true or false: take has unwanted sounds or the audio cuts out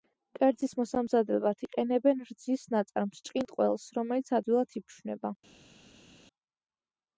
false